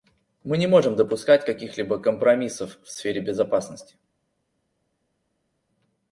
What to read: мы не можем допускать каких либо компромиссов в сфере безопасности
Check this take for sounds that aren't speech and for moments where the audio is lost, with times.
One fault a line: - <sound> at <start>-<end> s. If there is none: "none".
none